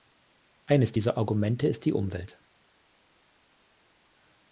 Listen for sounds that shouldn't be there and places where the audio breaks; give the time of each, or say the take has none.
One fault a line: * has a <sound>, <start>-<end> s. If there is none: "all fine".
all fine